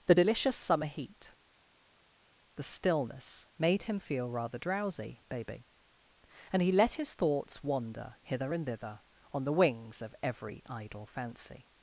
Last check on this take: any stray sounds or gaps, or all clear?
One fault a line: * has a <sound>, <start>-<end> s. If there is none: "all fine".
all fine